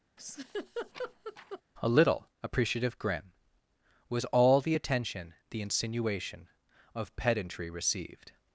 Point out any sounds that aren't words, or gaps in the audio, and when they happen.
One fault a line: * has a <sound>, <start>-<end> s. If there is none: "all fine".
* has a laugh, 0.2-1.6 s